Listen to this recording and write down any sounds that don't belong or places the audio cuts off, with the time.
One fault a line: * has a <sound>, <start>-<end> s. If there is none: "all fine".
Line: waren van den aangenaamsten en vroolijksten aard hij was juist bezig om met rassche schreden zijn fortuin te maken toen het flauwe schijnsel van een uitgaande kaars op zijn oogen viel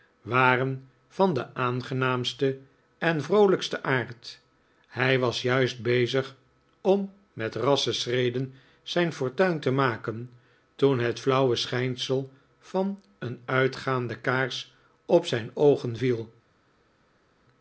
all fine